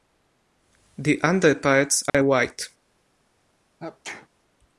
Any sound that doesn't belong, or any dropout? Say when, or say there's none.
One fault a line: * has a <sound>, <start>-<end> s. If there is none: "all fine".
* has a dropout, 2.1-2.1 s
* has a sneeze, 3.8-4.3 s